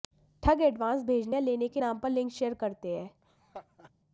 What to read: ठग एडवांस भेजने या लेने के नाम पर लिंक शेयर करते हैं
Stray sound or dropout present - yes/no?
yes